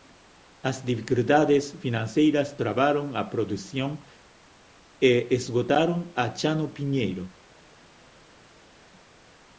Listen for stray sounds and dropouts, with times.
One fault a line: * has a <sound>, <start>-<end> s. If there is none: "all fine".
all fine